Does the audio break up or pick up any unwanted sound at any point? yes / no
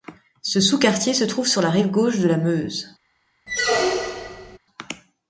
yes